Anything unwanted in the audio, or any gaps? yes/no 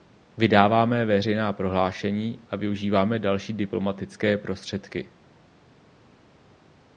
no